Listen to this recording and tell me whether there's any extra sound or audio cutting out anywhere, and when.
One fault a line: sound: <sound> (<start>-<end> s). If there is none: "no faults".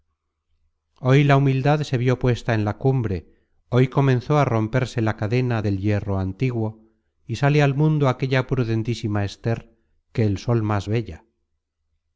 no faults